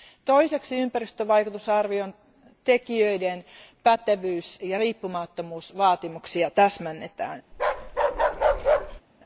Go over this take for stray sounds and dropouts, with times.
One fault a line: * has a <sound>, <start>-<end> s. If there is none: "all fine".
* has a bark, 7.5-9.0 s